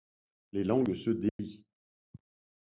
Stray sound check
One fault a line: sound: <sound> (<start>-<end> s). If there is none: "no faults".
sound: dropout (1.3-1.4 s)